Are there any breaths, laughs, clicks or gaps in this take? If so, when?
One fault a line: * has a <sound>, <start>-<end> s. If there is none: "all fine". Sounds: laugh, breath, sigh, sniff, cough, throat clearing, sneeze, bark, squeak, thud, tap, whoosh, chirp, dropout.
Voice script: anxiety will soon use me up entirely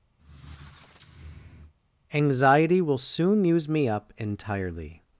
* has a squeak, 0.2-1.7 s